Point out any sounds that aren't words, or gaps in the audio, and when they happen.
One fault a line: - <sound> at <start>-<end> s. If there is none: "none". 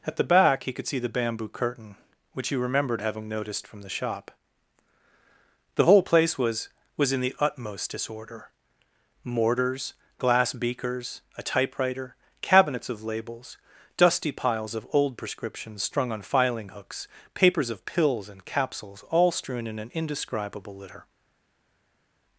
none